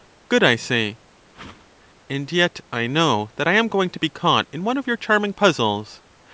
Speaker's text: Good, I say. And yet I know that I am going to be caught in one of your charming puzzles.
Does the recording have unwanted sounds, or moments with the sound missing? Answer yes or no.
yes